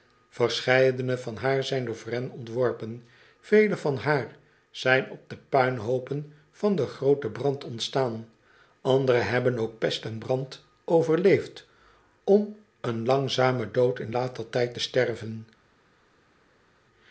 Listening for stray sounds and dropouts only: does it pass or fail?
pass